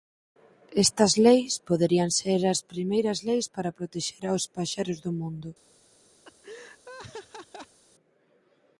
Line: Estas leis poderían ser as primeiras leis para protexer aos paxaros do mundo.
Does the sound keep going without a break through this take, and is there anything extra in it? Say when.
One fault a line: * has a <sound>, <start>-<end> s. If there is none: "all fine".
* has a laugh, 6.2-7.8 s